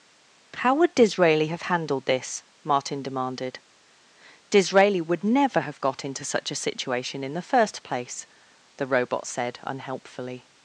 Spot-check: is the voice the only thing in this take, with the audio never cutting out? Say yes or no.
yes